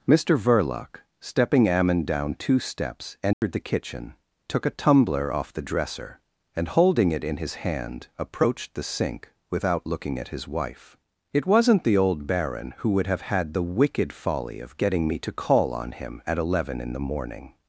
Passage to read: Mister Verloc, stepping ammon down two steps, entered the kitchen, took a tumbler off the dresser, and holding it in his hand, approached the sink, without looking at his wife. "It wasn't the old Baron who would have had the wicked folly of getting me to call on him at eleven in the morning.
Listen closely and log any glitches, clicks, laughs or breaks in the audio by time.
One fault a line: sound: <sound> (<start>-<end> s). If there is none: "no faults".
sound: dropout (3.3-3.4 s)